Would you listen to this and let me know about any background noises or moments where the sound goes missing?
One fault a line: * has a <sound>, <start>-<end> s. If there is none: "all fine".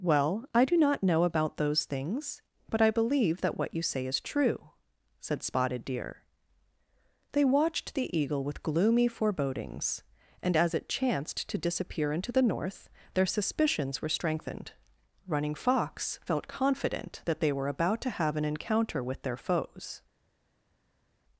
all fine